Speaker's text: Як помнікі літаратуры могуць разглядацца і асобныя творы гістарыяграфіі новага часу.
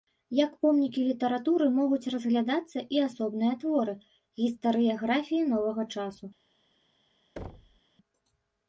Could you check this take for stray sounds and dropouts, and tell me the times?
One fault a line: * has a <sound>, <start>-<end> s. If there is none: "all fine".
* has a thud, 7.4-7.8 s